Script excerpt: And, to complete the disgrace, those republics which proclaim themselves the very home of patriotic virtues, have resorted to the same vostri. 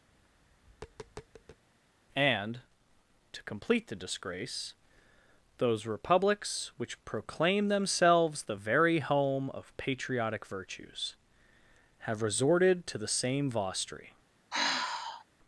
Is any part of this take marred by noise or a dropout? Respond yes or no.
yes